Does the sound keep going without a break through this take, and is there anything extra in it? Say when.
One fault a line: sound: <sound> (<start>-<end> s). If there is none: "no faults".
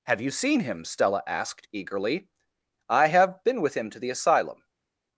no faults